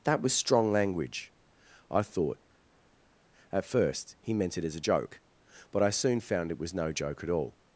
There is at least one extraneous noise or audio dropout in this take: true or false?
false